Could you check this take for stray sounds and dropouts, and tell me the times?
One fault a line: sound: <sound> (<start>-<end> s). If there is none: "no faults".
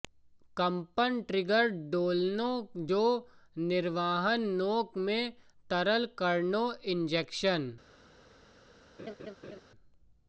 sound: laugh (9.0-9.6 s)